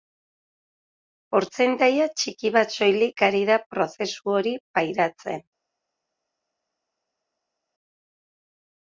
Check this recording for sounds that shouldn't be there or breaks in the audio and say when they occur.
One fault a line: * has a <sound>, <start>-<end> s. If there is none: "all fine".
all fine